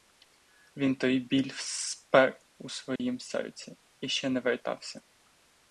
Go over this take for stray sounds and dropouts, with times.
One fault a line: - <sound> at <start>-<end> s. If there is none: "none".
- dropout at 3.0-3.0 s